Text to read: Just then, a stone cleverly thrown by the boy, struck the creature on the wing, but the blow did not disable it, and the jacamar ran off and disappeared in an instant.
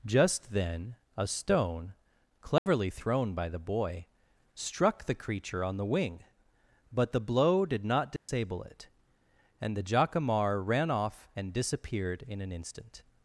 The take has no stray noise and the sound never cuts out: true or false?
false